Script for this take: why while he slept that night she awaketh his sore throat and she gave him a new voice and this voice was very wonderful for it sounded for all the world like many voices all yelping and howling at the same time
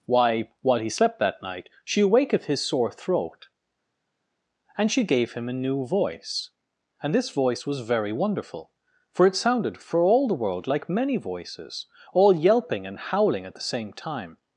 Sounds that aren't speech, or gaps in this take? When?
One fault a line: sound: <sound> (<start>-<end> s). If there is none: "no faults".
no faults